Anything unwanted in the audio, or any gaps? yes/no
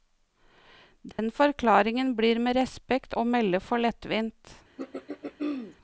yes